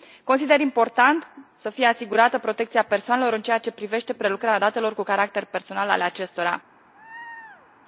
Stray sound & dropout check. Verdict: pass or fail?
fail